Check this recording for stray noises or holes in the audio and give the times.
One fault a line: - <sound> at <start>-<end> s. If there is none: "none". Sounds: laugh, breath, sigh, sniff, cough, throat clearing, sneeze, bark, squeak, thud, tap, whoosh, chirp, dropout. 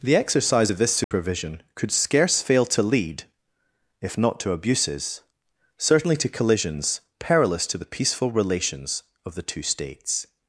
- dropout at 1.0-1.1 s